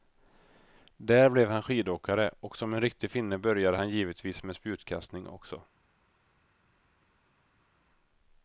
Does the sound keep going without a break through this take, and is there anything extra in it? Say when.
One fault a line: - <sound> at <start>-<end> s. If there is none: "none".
none